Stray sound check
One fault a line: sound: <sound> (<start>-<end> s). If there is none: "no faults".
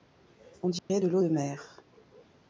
sound: dropout (0.8-0.9 s)